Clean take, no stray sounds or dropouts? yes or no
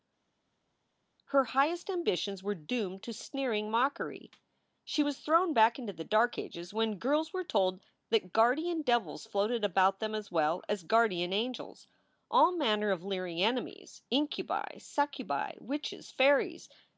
yes